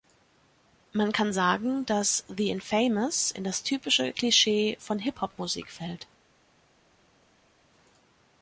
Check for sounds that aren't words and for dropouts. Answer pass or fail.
pass